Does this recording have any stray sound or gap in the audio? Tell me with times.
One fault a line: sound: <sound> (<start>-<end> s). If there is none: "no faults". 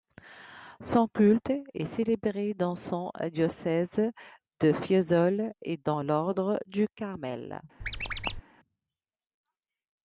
sound: squeak (7.8-8.4 s)